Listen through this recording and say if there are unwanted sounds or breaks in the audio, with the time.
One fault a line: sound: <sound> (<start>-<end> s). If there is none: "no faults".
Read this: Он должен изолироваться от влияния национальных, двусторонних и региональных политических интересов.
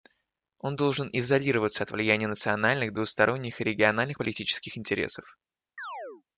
sound: chirp (5.8-6.2 s)